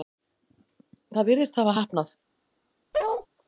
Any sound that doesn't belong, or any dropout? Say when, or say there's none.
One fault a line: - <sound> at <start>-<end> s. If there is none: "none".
- bark at 2.9-3.3 s